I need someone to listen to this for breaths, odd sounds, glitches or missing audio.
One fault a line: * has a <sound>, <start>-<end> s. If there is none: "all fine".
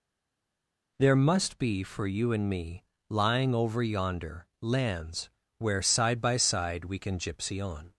all fine